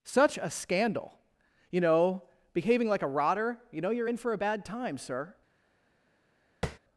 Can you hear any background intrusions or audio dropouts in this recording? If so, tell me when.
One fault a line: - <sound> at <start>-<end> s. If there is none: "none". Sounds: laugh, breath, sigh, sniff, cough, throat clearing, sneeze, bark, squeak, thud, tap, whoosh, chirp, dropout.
- tap at 6.6-6.8 s